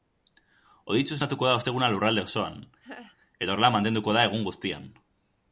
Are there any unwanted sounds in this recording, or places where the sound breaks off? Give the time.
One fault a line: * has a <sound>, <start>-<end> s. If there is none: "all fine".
* has a laugh, 2.8-3.2 s